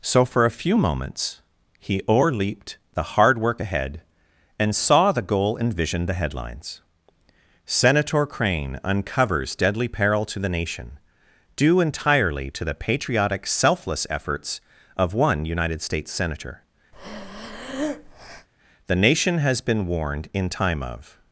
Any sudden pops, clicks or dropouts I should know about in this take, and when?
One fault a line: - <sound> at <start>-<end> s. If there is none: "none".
- breath at 16.9-18.5 s